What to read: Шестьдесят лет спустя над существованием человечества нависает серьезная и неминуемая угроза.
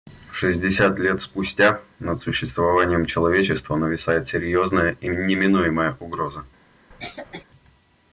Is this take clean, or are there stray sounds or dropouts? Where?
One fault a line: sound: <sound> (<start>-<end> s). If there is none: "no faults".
sound: cough (6.9-7.4 s)